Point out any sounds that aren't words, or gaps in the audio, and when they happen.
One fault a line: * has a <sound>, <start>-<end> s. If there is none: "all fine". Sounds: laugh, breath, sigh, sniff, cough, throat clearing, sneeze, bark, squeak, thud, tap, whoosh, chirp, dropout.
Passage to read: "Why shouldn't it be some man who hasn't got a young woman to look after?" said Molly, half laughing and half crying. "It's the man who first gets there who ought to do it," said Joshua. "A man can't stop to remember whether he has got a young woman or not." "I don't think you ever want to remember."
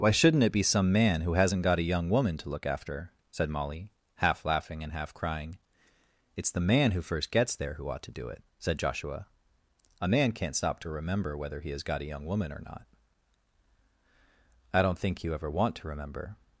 all fine